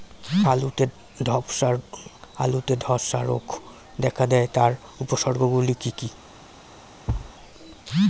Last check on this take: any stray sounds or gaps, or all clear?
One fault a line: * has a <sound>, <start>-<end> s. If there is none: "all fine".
* has a thud, 7.1-7.3 s